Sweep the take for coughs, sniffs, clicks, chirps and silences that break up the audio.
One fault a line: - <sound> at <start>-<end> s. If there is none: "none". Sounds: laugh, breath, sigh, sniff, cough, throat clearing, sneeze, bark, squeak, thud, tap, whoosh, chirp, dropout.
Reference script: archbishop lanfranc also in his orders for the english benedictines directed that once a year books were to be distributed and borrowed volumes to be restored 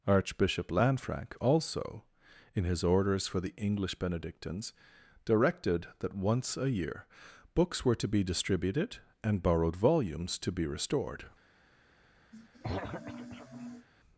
- throat clearing at 12.3-13.9 s